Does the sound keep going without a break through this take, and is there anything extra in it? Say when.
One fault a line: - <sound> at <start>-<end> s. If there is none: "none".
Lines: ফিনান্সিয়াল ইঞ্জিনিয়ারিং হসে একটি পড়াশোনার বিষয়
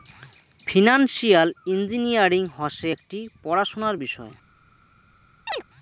- chirp at 5.5-5.6 s